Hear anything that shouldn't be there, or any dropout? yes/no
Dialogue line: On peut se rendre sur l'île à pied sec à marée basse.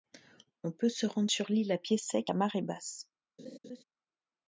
yes